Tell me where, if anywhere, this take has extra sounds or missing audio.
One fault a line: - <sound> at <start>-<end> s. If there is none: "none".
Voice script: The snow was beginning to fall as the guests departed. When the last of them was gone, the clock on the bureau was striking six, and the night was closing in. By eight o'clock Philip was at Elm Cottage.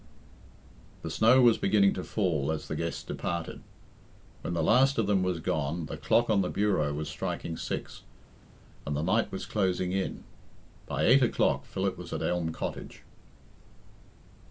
none